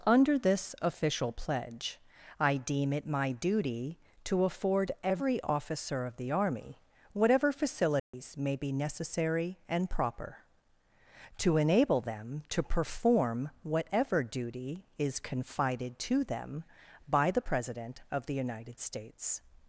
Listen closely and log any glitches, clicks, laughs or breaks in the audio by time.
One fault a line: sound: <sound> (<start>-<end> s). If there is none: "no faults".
sound: dropout (8.0-8.1 s)